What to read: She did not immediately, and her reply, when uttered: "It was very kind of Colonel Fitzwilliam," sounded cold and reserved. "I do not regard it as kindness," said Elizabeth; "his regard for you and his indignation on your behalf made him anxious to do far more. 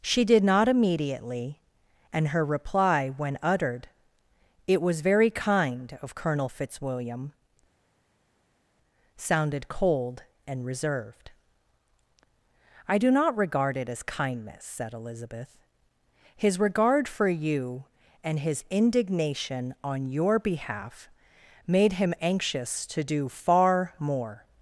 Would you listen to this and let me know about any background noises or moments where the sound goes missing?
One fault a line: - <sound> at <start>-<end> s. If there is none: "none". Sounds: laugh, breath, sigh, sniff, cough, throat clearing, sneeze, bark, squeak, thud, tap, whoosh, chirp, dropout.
none